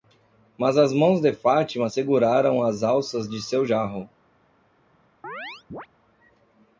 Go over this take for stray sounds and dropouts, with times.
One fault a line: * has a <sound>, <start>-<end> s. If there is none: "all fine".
* has a chirp, 5.2-5.9 s